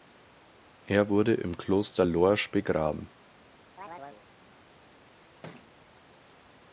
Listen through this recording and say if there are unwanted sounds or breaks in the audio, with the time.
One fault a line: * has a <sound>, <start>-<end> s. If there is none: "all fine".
* has a chirp, 3.8-4.2 s
* has a thud, 5.4-5.7 s